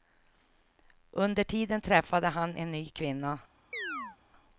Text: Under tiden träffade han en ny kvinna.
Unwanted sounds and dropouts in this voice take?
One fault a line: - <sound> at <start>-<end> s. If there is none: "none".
- chirp at 3.7-4.2 s